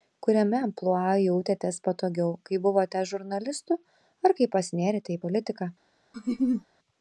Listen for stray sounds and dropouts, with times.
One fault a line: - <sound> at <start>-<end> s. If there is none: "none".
- laugh at 6.1-6.7 s